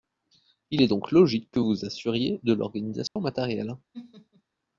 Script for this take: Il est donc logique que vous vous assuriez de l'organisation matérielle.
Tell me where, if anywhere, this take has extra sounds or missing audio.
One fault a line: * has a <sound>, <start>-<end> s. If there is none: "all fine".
* has a dropout, 3.1-3.2 s
* has a laugh, 3.9-4.4 s